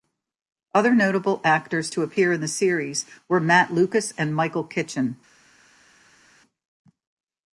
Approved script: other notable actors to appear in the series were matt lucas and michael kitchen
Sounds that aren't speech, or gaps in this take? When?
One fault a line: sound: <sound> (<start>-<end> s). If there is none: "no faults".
no faults